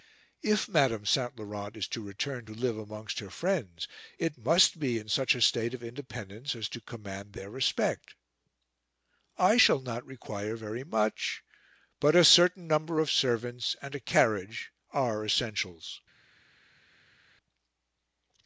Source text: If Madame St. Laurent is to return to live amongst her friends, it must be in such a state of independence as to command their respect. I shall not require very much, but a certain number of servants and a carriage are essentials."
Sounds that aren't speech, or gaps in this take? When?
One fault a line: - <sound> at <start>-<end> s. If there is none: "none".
none